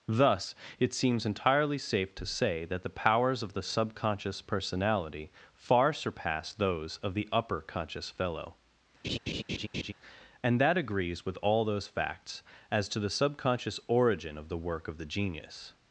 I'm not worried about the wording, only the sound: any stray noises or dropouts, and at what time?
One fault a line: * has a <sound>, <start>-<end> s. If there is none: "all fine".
* has a laugh, 9.0-9.9 s